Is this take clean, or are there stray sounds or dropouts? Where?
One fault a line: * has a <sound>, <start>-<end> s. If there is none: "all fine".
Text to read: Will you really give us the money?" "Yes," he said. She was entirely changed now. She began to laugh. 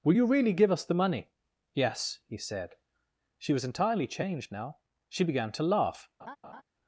* has a laugh, 6.2-6.6 s